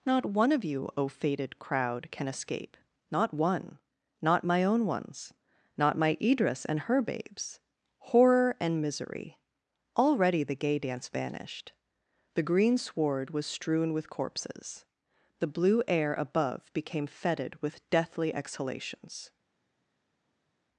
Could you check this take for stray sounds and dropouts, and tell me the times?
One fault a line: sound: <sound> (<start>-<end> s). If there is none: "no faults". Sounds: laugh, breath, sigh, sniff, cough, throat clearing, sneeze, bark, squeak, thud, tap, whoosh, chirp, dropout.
no faults